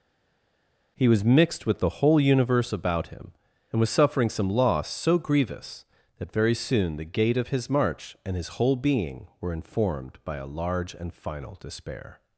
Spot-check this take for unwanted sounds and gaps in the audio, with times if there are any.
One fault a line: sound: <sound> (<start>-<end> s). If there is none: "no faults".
no faults